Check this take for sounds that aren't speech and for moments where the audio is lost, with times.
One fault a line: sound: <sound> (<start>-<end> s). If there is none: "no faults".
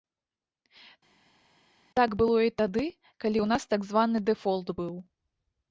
no faults